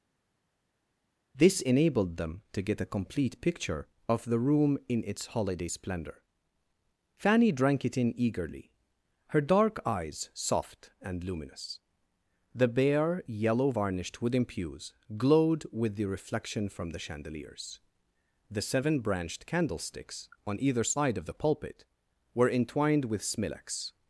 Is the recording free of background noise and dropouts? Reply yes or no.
yes